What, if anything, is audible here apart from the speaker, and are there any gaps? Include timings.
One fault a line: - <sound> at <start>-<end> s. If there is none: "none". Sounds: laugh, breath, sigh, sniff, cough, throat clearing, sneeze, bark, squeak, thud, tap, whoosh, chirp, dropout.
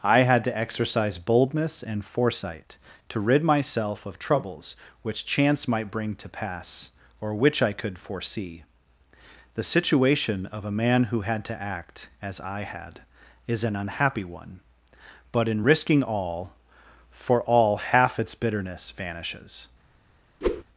- whoosh at 20.4-20.6 s